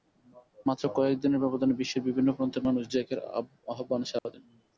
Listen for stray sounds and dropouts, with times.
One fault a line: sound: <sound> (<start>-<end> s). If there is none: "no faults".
sound: dropout (4.2-4.2 s)